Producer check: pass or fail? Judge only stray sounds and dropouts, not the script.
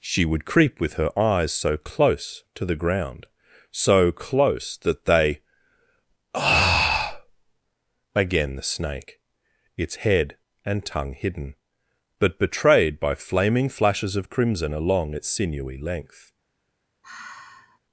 fail